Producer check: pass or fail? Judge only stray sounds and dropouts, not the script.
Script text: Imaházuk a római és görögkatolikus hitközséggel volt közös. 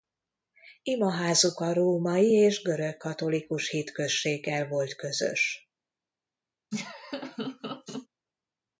fail